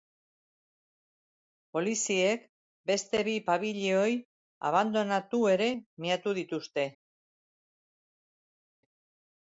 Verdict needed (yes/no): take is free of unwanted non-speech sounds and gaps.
yes